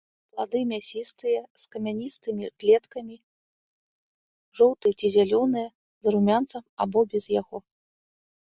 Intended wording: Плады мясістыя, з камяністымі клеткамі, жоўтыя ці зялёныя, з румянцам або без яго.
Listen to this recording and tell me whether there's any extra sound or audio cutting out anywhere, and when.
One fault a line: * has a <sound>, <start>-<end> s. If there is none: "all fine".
all fine